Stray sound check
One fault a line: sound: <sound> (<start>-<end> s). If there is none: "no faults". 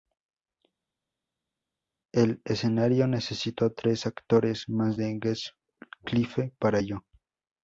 no faults